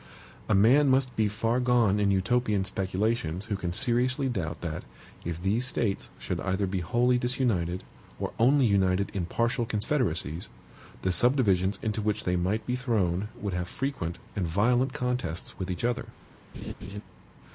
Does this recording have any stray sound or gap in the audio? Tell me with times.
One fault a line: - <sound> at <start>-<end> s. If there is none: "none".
- laugh at 16.5-17.0 s